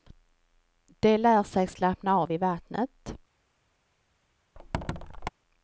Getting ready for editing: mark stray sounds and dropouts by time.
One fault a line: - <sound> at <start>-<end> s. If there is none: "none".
- squeak at 4.6-5.3 s